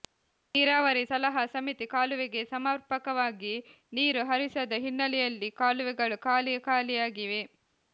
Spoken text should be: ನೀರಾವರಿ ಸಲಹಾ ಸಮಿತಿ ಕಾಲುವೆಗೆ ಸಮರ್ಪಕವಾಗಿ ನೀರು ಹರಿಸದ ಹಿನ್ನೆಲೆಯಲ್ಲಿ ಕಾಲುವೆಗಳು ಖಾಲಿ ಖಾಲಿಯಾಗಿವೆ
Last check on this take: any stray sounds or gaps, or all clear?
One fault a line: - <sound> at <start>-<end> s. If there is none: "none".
none